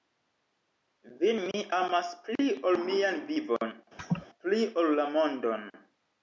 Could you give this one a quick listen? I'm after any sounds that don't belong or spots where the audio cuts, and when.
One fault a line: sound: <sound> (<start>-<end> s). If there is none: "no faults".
sound: laugh (4.0-4.3 s)